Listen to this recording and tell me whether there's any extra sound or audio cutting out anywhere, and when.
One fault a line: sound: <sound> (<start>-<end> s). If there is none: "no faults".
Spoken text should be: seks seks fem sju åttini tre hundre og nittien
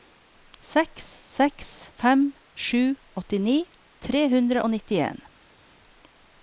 no faults